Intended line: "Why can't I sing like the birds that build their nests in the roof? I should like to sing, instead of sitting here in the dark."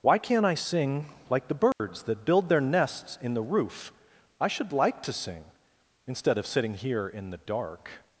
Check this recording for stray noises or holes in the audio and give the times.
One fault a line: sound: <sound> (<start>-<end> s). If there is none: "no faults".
sound: dropout (1.7-1.8 s)